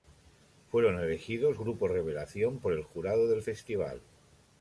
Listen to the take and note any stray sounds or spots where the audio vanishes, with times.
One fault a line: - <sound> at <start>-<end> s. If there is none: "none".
none